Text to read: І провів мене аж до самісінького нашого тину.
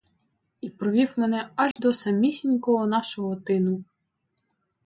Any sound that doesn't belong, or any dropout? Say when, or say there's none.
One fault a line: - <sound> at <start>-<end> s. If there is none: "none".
- dropout at 1.7-1.8 s